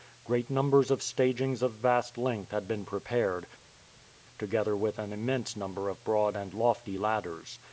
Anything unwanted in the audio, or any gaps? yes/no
no